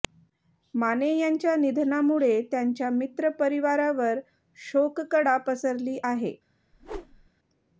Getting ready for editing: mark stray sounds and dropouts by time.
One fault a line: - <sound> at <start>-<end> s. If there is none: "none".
- whoosh at 6.7-7.3 s